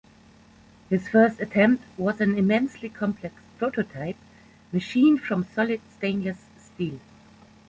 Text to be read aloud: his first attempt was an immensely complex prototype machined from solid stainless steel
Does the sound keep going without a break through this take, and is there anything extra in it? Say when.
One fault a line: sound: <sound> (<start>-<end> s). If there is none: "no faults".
no faults